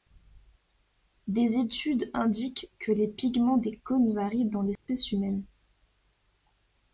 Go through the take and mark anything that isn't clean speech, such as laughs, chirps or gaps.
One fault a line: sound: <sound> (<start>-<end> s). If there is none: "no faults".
sound: dropout (4.8-4.9 s)